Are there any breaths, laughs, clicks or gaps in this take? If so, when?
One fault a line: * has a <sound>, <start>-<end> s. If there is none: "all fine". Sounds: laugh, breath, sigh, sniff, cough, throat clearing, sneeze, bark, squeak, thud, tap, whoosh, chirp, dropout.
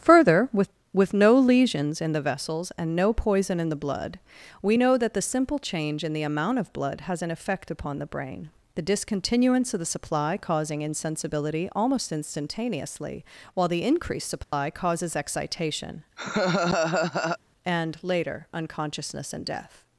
* has a dropout, 14.4-14.5 s
* has a laugh, 16.2-17.4 s